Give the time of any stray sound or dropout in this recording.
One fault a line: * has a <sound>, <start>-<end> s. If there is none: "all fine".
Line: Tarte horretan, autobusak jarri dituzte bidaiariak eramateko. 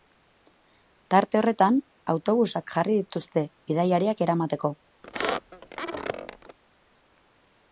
* has a squeak, 5.0-6.6 s